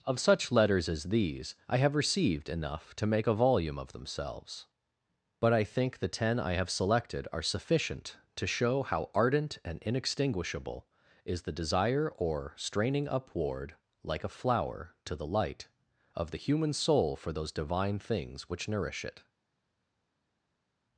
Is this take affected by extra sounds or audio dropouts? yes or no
no